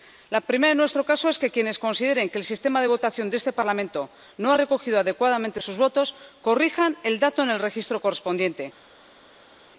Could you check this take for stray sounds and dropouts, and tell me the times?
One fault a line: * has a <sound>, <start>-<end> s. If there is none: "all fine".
all fine